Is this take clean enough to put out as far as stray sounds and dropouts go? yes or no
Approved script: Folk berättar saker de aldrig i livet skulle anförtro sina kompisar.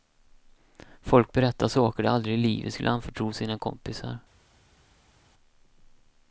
yes